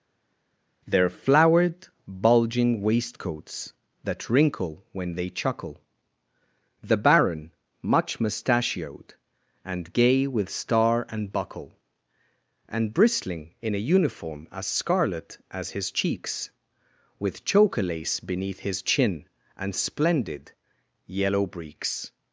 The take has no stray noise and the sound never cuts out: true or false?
true